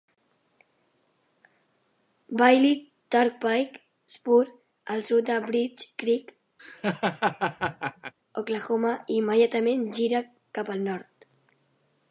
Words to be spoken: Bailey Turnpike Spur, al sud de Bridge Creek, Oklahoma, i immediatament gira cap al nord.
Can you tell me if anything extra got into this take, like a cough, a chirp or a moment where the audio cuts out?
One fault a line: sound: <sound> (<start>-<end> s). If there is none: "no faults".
sound: laugh (6.6-8.1 s)